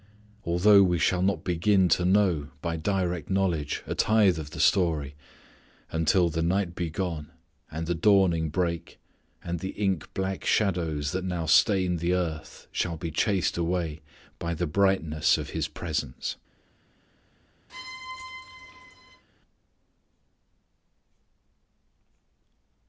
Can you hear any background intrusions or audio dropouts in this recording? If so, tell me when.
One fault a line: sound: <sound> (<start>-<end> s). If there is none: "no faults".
sound: squeak (17.7-19.2 s)